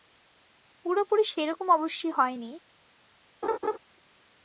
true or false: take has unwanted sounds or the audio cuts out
true